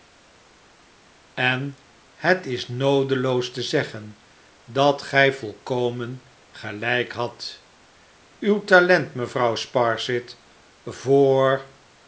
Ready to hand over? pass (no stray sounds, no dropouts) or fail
pass